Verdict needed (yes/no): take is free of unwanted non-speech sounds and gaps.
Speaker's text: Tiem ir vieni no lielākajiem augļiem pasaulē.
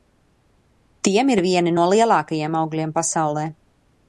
yes